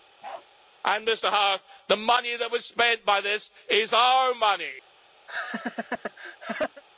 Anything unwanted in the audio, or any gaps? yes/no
yes